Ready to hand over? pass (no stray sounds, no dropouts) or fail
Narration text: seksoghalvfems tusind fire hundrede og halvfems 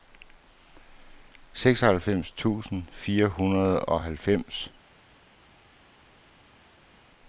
pass